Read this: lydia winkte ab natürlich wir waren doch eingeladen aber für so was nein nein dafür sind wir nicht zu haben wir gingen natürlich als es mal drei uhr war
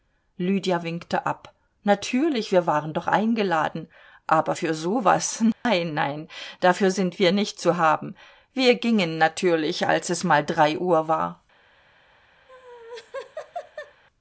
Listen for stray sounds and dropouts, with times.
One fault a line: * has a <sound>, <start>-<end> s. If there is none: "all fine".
* has a dropout, 5.5-5.7 s
* has a laugh, 12.5-14.0 s